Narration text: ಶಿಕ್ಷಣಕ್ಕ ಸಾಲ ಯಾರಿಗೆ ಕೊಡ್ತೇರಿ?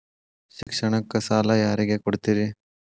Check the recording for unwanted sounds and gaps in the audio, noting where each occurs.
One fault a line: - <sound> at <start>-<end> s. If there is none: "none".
- dropout at 0.6-0.7 s